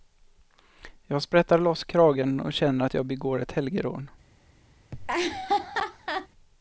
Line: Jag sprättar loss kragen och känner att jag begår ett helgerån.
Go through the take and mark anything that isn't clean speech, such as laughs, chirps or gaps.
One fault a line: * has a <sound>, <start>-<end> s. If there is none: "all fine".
* has a laugh, 4.9-6.3 s